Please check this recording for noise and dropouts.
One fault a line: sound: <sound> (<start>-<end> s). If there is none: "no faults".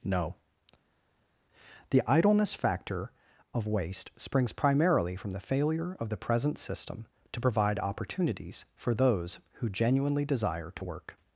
no faults